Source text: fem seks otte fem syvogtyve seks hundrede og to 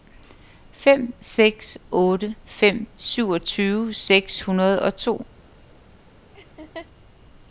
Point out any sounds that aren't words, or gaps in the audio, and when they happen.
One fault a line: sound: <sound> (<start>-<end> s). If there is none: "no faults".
sound: laugh (6.3-6.9 s)